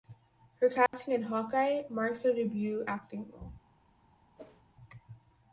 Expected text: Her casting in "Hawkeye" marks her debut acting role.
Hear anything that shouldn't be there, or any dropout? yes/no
yes